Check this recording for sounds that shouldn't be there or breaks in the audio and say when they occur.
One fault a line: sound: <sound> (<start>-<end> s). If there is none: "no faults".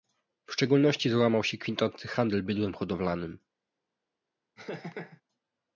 sound: laugh (4.6-5.2 s)